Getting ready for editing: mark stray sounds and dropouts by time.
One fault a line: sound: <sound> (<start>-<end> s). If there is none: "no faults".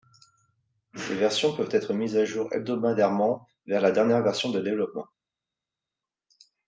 no faults